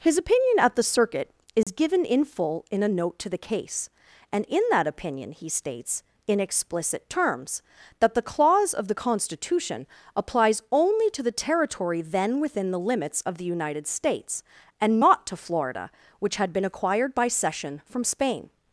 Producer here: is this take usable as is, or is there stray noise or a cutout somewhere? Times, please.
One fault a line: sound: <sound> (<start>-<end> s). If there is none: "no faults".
sound: dropout (1.6-1.7 s)